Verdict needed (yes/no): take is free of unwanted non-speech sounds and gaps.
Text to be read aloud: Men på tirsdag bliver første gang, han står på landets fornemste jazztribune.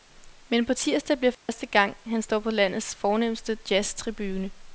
no